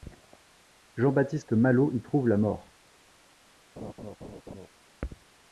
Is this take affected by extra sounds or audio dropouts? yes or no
yes